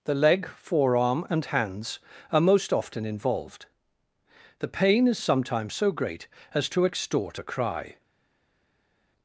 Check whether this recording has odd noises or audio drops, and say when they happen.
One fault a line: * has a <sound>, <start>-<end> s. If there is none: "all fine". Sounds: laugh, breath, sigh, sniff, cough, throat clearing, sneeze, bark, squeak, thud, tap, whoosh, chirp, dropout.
all fine